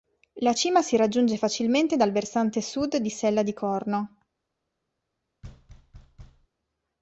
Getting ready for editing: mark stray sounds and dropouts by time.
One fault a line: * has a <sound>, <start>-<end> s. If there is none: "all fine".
* has a thud, 5.4-6.5 s